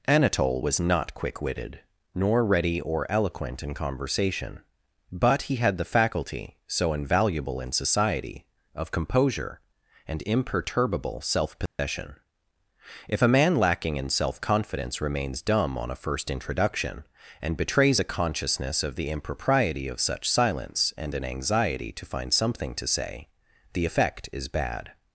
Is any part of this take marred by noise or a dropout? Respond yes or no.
yes